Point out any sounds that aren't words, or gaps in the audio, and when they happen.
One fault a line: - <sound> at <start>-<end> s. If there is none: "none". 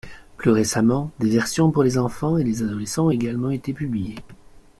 none